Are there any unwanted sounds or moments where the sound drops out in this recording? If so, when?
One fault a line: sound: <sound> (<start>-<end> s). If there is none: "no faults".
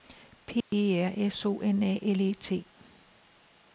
sound: dropout (0.6-0.7 s)